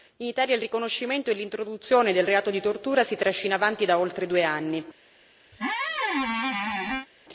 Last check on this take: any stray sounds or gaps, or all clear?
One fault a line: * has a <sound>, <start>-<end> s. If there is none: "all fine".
* has a squeak, 5.5-7.1 s